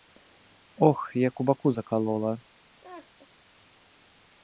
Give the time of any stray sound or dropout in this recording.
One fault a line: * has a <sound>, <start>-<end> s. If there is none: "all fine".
* has a laugh, 2.8-3.3 s